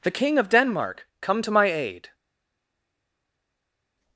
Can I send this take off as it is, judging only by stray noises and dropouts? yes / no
yes